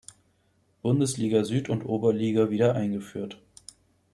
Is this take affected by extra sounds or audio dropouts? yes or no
no